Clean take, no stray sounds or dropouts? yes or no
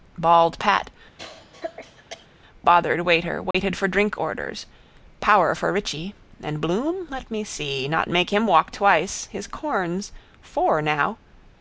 no